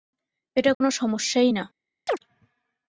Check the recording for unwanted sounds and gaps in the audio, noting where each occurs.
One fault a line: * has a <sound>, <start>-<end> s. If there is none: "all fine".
* has a dropout, 0.7-0.8 s
* has a chirp, 2.1-2.2 s